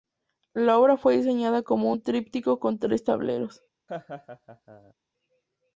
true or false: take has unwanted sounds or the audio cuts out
true